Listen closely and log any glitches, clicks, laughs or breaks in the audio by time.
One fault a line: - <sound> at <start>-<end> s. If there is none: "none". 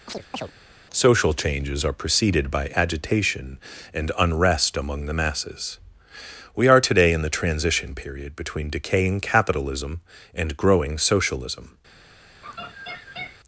- chirp at 0.1-0.5 s
- laugh at 12.4-13.4 s